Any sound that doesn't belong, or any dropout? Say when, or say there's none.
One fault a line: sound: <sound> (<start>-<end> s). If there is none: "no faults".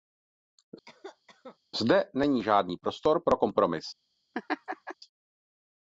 sound: cough (0.9-1.6 s)
sound: laugh (4.3-4.9 s)